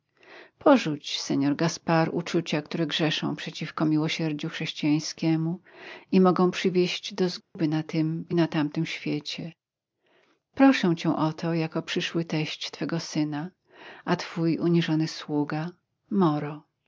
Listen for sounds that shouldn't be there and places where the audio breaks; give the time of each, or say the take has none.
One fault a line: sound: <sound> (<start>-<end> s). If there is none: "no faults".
sound: dropout (7.4-7.6 s)